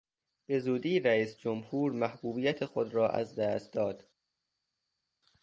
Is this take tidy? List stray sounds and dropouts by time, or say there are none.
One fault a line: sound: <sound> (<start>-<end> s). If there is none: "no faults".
no faults